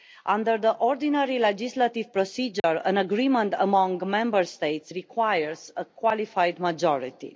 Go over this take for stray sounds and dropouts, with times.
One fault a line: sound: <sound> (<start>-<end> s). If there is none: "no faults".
sound: dropout (2.6-2.6 s)